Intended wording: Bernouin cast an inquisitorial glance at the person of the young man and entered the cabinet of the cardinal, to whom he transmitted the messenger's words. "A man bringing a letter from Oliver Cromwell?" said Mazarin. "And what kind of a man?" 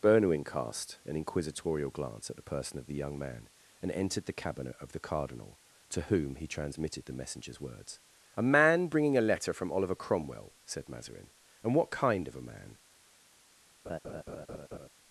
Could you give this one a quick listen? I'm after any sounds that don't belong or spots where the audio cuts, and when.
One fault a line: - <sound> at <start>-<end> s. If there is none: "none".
- laugh at 13.8-14.9 s